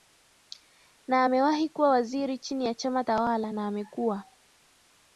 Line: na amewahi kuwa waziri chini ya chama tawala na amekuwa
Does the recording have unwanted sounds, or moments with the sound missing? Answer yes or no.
no